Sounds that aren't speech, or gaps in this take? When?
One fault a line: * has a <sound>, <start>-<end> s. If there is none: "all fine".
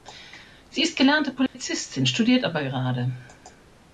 * has a dropout, 1.5-1.5 s